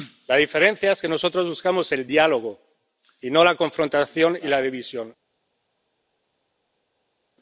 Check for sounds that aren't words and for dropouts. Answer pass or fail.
pass